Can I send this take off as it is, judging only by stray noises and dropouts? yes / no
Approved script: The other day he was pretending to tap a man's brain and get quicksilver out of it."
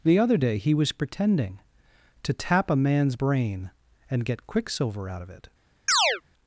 no